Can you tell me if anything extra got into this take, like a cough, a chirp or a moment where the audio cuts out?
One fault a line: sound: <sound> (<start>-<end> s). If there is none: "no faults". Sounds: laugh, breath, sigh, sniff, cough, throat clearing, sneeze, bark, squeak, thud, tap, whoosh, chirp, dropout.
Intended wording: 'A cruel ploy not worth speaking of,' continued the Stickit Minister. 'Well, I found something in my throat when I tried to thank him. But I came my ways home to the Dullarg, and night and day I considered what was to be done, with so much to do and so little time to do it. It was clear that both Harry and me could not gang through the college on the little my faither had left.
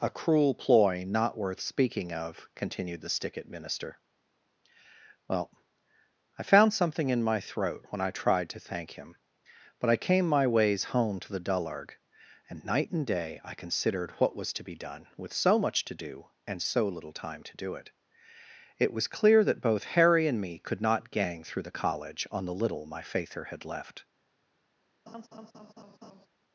sound: laugh (25.1-26.3 s)